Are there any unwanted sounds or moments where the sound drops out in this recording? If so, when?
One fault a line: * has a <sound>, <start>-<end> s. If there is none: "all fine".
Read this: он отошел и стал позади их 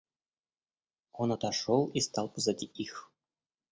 all fine